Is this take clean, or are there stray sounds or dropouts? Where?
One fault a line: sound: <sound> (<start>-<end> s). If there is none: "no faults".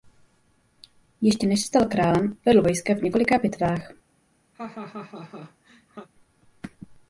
sound: laugh (4.5-6.1 s)